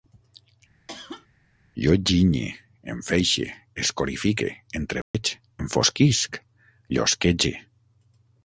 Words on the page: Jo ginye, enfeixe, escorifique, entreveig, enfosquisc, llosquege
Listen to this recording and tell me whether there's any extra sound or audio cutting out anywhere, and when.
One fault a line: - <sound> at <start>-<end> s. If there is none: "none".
- cough at 0.9-1.3 s
- dropout at 5.0-5.1 s